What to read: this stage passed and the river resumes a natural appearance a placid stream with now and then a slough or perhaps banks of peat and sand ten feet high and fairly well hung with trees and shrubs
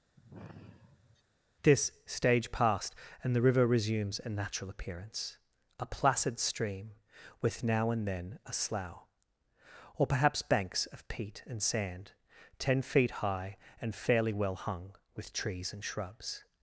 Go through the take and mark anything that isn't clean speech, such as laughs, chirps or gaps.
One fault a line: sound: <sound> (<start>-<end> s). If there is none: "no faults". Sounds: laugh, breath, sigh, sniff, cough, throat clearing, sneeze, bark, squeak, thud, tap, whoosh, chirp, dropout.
sound: sigh (0.2-1.2 s)